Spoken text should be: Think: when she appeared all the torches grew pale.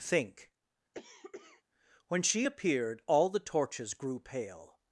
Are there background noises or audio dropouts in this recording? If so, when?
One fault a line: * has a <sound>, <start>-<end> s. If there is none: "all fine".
* has a cough, 0.9-1.6 s